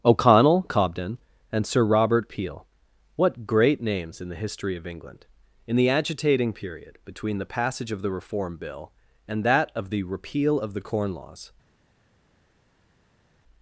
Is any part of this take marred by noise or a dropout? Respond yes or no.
no